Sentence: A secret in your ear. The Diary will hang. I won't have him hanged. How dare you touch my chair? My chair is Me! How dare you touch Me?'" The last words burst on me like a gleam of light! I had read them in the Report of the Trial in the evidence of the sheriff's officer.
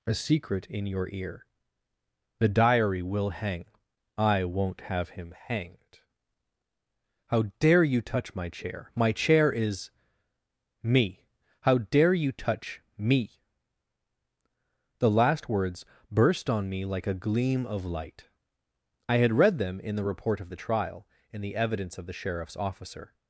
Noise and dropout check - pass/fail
pass